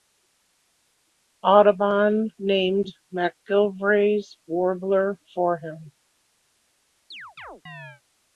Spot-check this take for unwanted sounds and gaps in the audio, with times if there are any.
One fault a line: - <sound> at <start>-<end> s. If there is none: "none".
- chirp at 7.1-8.0 s